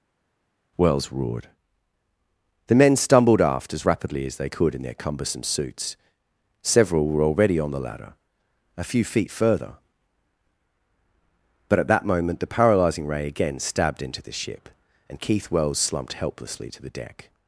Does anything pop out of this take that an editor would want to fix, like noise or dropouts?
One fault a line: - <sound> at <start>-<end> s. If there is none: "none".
none